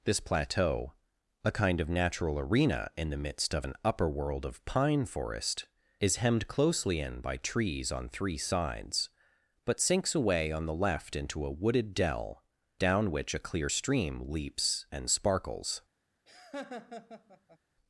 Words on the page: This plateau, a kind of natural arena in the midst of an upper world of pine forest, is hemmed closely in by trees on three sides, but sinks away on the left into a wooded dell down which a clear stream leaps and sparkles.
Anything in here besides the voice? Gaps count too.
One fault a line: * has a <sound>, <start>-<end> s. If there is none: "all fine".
* has a laugh, 16.3-17.6 s